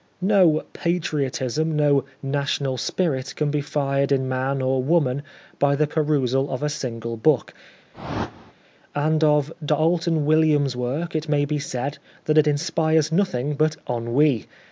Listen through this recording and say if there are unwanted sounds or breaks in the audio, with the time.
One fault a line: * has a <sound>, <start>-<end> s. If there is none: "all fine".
* has a whoosh, 7.9-8.5 s